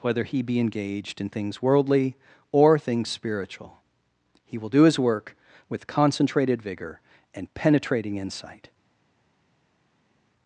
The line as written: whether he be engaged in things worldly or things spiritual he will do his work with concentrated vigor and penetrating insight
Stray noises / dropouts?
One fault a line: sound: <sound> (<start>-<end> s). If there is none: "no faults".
no faults